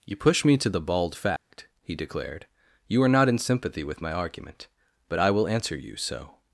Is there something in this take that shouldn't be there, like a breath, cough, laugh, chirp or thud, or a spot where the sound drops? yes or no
yes